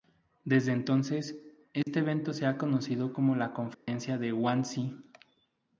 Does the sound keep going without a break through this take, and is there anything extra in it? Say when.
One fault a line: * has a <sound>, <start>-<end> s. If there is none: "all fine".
* has a dropout, 1.8-1.9 s
* has a dropout, 3.7-3.9 s